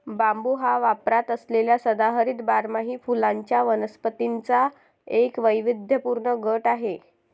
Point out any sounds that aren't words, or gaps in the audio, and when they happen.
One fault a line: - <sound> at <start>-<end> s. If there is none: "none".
none